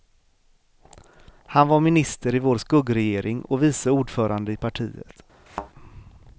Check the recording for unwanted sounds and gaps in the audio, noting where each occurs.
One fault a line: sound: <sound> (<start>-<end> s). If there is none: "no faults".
sound: thud (5.5-5.7 s)